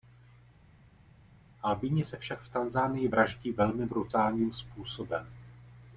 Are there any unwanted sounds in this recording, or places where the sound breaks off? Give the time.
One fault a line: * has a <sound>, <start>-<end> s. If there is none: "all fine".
all fine